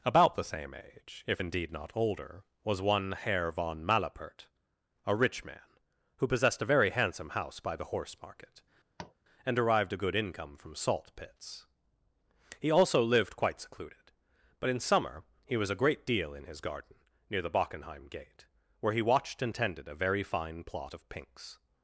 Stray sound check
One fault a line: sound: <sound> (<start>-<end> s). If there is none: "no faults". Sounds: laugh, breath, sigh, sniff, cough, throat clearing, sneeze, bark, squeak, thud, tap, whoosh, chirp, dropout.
sound: tap (9.0-9.1 s)